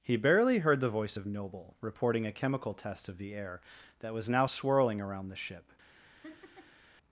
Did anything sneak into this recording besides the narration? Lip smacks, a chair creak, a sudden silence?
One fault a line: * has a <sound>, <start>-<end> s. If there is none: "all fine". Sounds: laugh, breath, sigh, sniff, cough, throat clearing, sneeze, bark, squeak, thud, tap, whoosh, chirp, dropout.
* has a laugh, 6.2-6.8 s